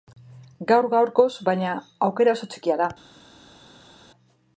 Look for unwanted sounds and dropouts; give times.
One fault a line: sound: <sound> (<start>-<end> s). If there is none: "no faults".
no faults